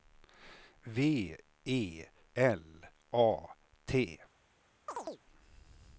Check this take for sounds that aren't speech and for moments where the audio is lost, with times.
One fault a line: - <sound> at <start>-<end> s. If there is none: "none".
- chirp at 4.9-5.2 s